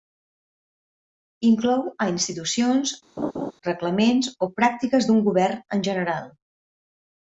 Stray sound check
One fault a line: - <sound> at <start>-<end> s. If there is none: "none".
- laugh at 3.2-3.5 s